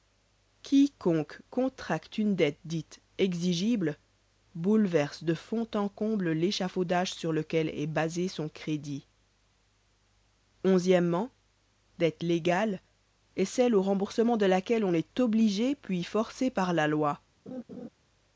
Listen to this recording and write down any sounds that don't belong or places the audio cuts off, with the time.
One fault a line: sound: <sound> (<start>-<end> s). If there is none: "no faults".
sound: laugh (17.5-17.9 s)